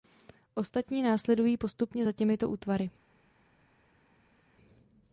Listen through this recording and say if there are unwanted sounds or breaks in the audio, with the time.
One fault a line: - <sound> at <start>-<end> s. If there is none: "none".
none